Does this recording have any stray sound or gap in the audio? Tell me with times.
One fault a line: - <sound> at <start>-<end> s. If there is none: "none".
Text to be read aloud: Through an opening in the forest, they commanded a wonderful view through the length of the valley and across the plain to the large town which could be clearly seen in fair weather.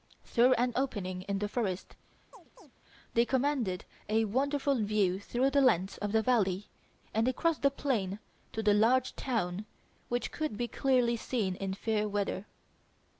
- chirp at 2.3-2.7 s